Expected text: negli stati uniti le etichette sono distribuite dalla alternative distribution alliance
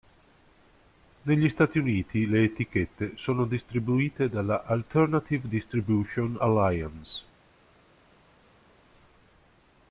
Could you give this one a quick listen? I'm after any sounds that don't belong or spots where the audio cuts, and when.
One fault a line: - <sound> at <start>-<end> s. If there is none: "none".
none